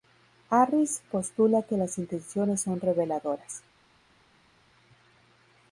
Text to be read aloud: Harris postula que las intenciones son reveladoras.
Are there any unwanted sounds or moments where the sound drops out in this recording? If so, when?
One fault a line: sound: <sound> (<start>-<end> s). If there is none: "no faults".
no faults